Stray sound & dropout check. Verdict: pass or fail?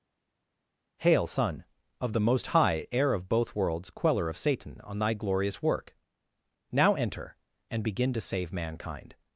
pass